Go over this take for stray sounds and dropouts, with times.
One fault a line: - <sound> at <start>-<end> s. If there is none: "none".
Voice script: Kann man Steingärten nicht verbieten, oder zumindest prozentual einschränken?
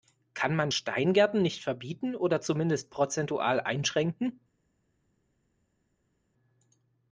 none